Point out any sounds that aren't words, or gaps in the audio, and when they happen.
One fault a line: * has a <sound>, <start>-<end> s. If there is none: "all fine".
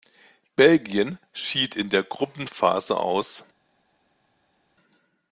all fine